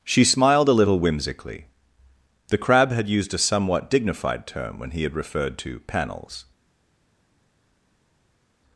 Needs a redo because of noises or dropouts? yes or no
no